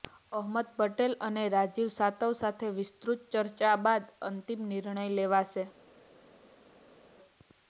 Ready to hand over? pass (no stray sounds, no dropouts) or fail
pass